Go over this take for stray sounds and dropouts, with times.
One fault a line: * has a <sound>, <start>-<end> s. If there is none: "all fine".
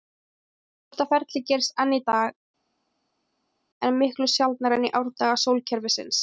all fine